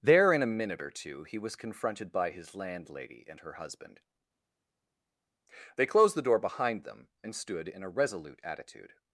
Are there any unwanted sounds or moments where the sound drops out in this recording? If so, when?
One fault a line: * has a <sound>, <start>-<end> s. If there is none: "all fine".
all fine